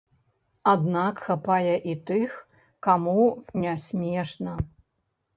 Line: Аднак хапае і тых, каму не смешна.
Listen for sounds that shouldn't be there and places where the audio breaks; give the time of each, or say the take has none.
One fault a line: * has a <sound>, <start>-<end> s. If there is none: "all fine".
all fine